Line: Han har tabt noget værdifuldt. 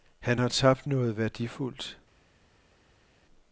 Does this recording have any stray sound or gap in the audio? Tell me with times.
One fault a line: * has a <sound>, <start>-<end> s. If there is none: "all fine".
all fine